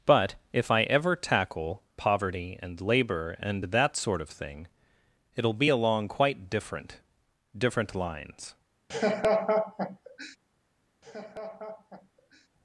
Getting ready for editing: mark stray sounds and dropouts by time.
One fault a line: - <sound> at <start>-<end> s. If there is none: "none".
- laugh at 8.9-10.4 s
- laugh at 11.0-12.5 s